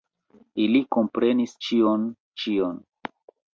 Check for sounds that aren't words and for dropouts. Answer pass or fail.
pass